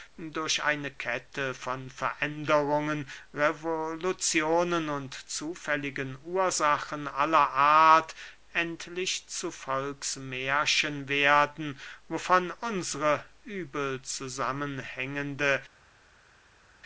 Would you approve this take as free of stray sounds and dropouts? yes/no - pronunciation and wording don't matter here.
yes